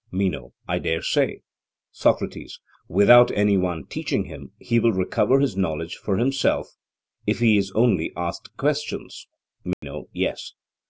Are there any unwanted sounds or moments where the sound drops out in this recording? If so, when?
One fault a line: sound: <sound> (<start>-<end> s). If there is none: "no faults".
sound: dropout (9.7-9.8 s)